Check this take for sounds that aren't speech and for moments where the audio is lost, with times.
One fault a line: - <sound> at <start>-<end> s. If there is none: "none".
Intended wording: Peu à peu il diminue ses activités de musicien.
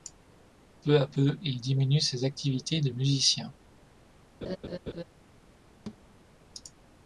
- laugh at 4.4-5.0 s
- thud at 5.9-6.0 s